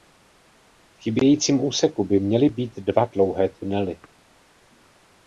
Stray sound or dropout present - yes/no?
no